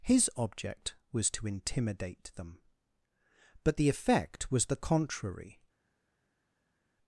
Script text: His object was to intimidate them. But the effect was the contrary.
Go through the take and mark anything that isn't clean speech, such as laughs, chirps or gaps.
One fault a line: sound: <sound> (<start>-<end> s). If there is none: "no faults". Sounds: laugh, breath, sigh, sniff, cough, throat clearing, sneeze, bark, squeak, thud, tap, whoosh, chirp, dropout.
no faults